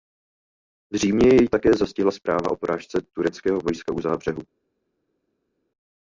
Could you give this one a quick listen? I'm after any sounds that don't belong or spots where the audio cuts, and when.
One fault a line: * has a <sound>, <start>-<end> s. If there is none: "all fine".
all fine